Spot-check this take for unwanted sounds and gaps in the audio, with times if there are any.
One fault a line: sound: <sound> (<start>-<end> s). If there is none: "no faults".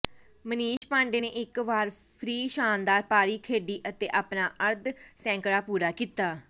sound: dropout (0.8-0.8 s)